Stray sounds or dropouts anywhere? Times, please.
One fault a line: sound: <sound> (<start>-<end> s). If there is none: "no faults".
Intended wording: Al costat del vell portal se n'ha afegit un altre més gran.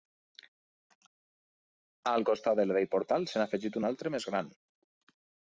no faults